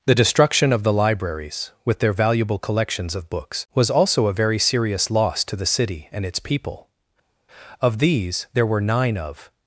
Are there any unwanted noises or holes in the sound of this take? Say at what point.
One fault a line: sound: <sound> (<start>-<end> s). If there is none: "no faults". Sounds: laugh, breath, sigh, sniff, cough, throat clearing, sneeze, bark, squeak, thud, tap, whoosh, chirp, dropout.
no faults